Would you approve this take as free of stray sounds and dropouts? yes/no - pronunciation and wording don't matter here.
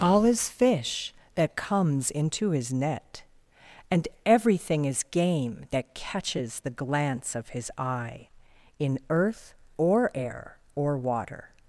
yes